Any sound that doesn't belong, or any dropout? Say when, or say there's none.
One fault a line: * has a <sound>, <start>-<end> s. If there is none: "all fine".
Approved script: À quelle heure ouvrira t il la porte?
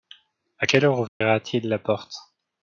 * has a dropout, 1.1-1.2 s